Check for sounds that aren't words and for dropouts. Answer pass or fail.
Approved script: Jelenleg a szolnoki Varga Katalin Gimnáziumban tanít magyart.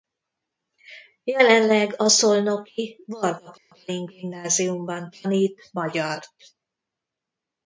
fail